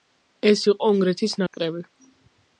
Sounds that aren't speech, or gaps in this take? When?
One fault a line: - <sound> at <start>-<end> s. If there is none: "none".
- dropout at 1.5-1.5 s